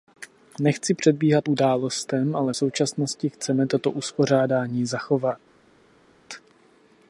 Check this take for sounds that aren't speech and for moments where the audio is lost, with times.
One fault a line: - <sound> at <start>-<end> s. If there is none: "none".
none